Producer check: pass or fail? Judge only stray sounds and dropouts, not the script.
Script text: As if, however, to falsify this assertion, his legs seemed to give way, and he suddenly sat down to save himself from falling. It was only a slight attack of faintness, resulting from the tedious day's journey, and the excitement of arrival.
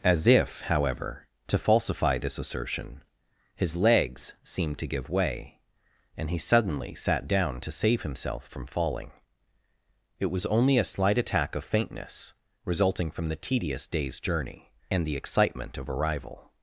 pass